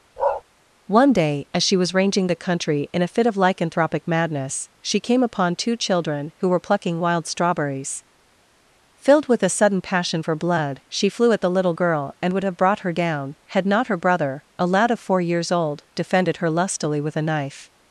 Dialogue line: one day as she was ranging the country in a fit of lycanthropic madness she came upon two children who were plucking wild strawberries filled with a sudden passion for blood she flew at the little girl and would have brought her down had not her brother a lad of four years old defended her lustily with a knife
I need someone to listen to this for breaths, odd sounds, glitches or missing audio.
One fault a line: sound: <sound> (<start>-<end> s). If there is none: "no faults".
sound: bark (0.2-0.4 s)